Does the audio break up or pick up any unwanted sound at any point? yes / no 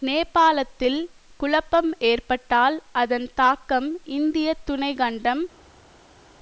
no